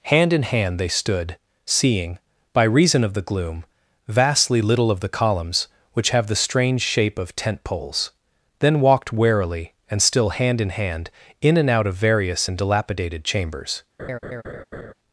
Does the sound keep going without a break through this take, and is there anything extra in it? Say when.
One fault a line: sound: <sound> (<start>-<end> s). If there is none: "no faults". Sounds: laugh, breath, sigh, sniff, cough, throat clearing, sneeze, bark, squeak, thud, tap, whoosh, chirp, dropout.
sound: laugh (14.0-14.9 s)